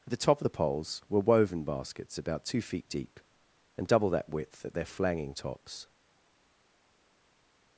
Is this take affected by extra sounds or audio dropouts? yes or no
no